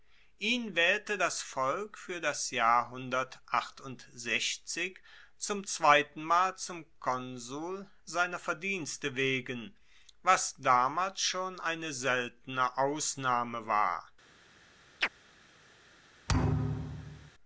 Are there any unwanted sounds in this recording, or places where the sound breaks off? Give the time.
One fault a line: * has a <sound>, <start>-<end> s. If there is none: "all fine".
* has a chirp, 15.0-15.1 s
* has a thud, 16.3-17.3 s